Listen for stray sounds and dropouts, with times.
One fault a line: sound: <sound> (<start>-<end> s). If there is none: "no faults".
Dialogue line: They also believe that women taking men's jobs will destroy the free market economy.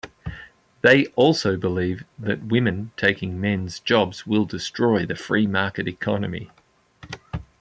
no faults